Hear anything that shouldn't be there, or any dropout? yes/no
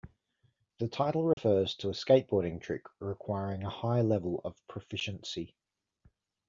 yes